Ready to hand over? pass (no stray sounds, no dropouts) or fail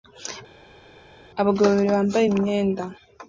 pass